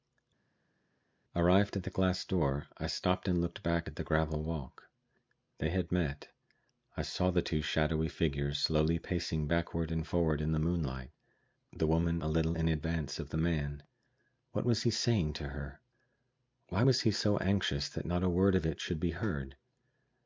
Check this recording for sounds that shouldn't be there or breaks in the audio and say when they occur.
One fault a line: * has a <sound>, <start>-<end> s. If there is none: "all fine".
all fine